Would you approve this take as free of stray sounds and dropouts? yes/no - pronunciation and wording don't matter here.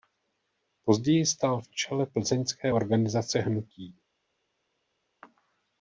yes